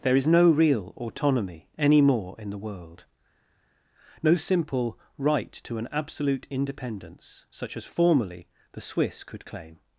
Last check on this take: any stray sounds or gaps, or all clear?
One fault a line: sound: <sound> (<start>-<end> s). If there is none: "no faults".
no faults